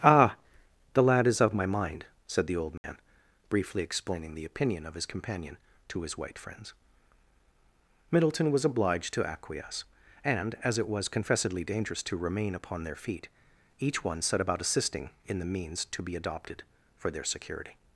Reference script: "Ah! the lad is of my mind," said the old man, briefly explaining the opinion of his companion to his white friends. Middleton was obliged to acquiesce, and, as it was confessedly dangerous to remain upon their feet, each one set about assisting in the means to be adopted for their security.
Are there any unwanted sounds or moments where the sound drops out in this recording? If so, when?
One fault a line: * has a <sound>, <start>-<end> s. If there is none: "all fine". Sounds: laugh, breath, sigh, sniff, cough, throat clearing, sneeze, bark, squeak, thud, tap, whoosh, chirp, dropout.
* has a dropout, 2.8-2.8 s